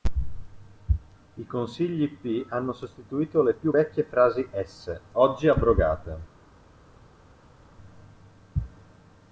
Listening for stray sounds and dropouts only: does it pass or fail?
pass